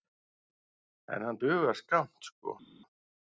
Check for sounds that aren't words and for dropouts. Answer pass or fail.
pass